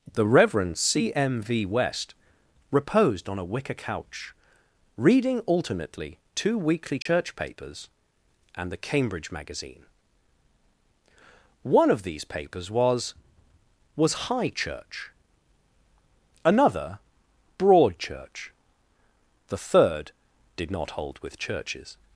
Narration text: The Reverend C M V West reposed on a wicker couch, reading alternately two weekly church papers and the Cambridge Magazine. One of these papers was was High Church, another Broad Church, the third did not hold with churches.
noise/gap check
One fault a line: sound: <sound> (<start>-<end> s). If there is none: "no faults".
sound: dropout (7.0-7.1 s)